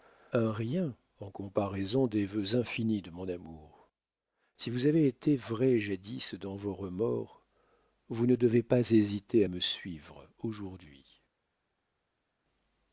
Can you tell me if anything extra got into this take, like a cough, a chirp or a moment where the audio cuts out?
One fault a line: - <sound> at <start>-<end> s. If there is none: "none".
none